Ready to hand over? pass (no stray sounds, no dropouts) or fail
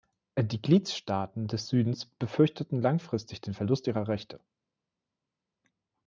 pass